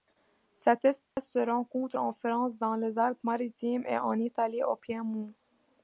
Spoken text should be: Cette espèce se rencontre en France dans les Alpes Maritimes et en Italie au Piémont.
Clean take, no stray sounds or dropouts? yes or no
no